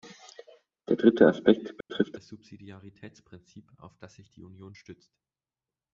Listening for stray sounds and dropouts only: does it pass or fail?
fail